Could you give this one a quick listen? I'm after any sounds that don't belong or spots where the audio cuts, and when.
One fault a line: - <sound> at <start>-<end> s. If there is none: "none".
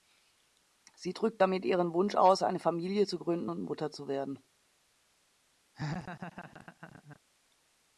- laugh at 5.7-7.2 s